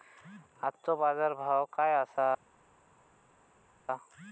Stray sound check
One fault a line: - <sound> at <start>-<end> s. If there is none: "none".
none